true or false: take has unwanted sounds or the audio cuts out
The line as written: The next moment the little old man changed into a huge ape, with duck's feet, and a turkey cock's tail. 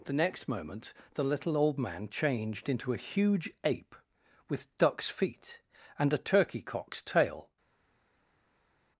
false